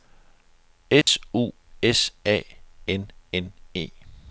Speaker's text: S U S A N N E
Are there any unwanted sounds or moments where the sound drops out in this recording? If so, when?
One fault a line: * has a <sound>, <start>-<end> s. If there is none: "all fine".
* has a dropout, 1.0-1.1 s